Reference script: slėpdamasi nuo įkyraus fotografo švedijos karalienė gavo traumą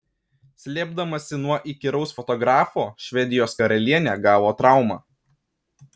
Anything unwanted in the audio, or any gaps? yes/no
no